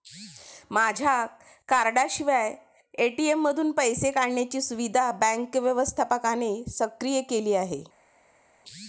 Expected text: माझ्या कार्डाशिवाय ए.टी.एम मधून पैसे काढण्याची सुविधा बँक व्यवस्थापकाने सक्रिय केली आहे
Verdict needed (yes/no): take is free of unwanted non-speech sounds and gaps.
yes